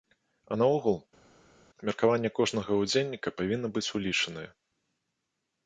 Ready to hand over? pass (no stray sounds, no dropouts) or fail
pass